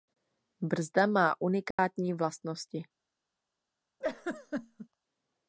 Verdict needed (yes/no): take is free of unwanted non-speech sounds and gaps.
no